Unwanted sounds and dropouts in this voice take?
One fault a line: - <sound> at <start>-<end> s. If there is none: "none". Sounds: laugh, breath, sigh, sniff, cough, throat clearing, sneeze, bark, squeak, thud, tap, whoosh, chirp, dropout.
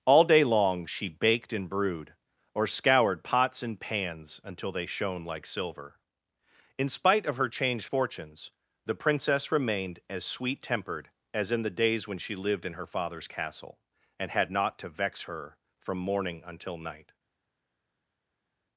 none